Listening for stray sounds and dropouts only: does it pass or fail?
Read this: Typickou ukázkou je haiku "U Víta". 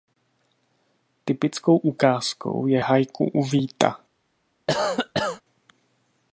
fail